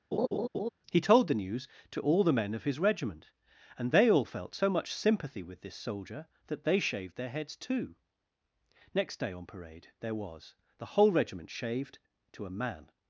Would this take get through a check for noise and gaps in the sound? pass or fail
fail